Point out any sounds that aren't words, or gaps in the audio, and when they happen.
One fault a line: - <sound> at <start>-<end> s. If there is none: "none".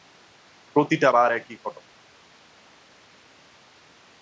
none